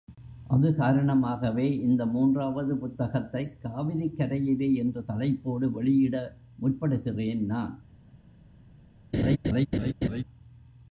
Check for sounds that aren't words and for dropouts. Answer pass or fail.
fail